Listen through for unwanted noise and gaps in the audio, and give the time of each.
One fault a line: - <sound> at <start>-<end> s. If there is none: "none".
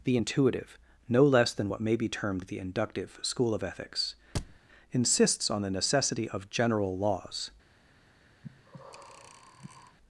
- thud at 4.3-4.6 s
- breath at 8.4-10.0 s